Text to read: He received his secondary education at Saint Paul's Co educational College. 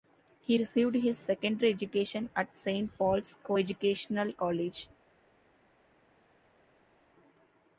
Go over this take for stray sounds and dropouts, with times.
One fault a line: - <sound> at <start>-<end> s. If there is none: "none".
none